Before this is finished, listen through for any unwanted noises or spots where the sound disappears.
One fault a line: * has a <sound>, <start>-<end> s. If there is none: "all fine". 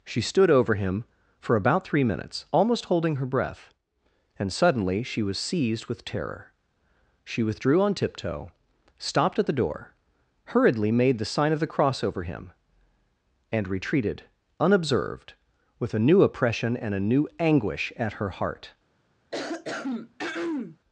* has a throat clearing, 19.3-20.8 s